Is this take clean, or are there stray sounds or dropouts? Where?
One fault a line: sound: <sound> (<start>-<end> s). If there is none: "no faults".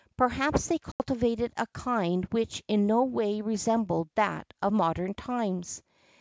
sound: dropout (0.9-1.0 s)